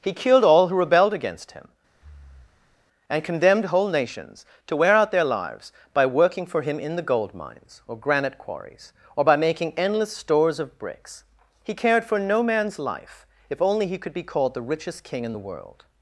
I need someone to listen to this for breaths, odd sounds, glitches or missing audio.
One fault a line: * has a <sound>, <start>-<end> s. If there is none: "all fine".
* has a breath, 1.9-2.9 s